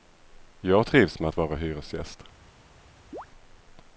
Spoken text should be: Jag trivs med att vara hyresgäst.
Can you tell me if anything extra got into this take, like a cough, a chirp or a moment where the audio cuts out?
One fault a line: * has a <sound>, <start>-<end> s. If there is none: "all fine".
* has a chirp, 3.1-3.3 s